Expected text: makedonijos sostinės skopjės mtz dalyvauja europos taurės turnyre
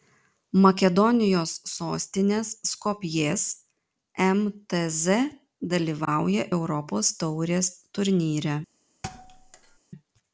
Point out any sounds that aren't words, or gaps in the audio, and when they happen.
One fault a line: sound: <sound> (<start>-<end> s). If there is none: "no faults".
sound: thud (9.0-9.8 s)